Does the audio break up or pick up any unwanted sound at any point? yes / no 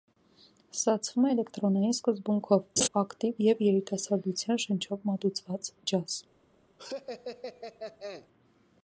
yes